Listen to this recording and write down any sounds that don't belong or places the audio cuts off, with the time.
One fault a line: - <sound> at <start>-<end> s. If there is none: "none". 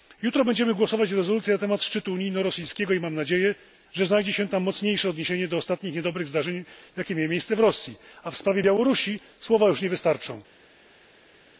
none